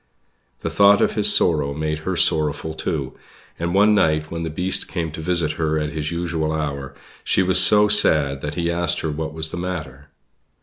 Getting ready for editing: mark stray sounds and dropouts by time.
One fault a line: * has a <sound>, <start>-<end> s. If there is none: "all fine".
all fine